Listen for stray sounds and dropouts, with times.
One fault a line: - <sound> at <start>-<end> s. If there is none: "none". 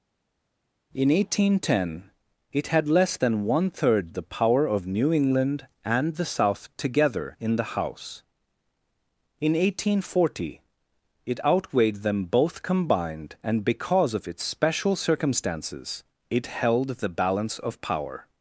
none